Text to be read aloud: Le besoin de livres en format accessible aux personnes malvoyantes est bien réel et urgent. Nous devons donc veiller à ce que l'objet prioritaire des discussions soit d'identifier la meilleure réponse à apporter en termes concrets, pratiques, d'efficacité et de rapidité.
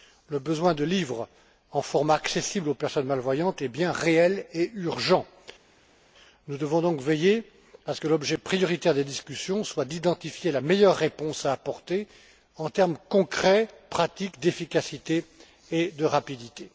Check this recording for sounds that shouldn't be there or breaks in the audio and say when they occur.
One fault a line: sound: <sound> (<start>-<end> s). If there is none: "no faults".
no faults